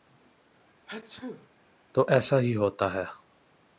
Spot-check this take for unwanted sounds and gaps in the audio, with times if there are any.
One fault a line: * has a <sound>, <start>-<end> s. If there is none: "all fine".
* has a sneeze, 0.9-1.5 s